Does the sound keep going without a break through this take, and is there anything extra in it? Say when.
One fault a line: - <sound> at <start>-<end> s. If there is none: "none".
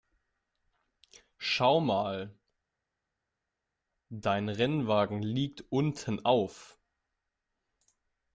none